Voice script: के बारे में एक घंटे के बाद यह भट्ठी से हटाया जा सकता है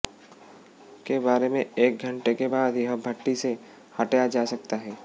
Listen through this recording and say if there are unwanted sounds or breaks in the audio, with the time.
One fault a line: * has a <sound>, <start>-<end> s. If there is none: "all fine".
all fine